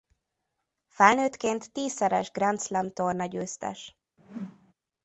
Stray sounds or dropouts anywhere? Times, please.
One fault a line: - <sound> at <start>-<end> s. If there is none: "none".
- whoosh at 4.2-4.7 s